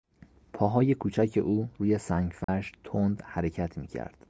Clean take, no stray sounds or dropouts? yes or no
no